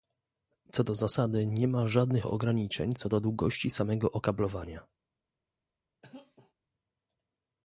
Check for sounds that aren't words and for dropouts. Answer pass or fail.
fail